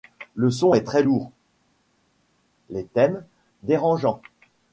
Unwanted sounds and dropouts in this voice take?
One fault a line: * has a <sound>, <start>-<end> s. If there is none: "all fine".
all fine